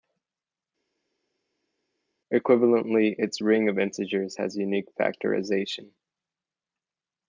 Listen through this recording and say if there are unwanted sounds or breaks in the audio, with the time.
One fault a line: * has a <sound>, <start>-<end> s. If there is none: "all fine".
all fine